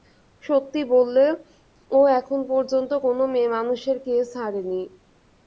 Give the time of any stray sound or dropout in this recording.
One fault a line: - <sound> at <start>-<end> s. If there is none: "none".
none